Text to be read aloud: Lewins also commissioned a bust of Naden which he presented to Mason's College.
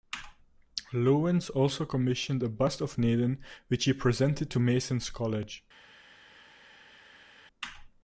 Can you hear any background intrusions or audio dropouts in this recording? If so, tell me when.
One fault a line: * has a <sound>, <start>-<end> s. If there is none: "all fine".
all fine